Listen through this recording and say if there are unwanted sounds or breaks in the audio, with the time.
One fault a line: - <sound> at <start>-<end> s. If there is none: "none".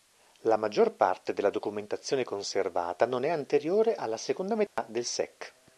- dropout at 4.7-4.8 s